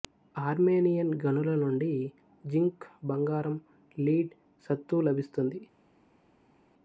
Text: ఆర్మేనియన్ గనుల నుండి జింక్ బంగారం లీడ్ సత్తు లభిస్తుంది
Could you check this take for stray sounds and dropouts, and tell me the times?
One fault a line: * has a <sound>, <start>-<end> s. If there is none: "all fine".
all fine